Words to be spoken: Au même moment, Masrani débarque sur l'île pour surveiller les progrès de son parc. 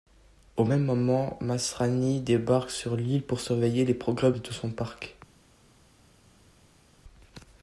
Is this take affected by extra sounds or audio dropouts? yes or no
no